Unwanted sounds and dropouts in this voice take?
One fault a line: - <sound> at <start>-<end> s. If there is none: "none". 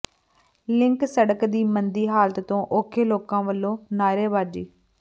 none